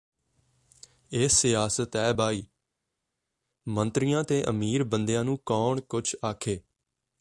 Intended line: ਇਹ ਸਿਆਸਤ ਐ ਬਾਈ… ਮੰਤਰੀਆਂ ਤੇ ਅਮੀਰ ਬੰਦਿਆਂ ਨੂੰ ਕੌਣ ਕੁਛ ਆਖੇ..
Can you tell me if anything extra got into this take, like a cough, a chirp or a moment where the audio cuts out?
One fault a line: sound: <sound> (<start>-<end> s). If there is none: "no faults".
no faults